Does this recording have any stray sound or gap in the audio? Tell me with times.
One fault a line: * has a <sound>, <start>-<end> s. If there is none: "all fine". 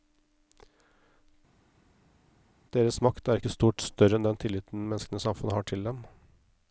all fine